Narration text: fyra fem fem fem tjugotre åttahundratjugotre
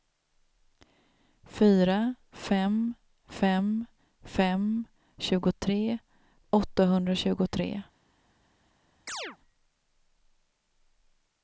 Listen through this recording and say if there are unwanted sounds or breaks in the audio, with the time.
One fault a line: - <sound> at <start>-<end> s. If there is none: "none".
- chirp at 9.1-9.4 s